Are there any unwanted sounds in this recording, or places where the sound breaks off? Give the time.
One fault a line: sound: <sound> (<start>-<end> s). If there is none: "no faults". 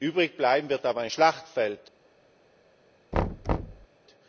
sound: thud (3.1-3.9 s)